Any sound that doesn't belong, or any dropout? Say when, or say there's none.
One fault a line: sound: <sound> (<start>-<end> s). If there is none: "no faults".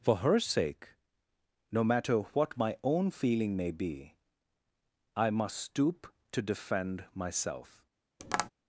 sound: tap (8.2-8.5 s)